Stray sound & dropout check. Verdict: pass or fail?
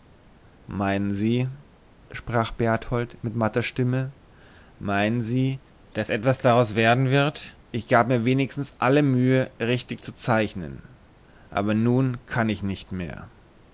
pass